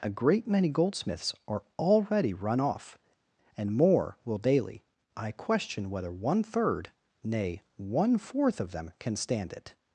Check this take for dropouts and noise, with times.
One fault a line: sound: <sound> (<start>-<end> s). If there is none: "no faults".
no faults